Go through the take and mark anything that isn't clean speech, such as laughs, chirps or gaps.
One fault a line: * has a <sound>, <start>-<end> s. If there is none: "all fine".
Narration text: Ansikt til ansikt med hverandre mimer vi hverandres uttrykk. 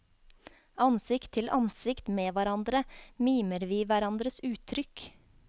all fine